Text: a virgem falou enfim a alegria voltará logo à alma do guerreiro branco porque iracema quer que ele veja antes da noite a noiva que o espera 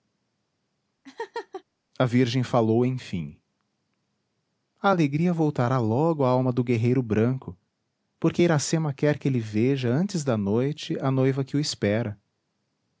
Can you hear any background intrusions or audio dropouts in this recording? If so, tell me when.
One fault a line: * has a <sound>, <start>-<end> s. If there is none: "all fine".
* has a laugh, 1.0-1.6 s